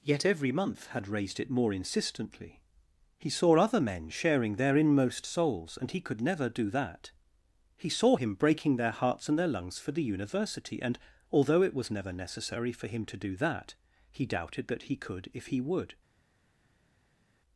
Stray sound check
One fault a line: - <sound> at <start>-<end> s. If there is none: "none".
none